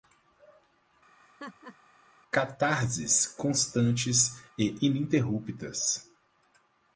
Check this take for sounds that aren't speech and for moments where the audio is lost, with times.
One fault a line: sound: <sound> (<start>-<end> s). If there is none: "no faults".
sound: laugh (1.2-1.8 s)